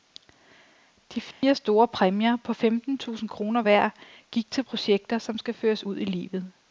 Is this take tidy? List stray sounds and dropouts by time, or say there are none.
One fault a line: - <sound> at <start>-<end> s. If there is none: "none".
- dropout at 1.3-1.4 s